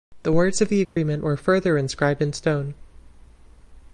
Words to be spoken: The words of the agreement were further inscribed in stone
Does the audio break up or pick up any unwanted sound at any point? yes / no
yes